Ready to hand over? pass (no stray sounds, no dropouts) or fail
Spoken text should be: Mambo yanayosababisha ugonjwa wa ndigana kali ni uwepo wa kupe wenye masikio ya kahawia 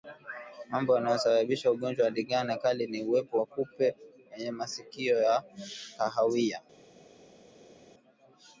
pass